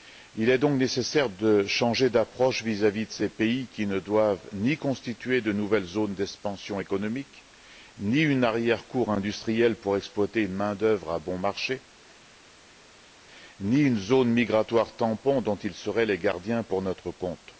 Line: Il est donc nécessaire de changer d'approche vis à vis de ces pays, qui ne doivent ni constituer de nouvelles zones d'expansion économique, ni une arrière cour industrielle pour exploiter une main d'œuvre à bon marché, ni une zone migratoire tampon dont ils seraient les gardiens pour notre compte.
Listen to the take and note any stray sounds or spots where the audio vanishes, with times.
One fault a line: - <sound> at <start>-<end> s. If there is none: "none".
none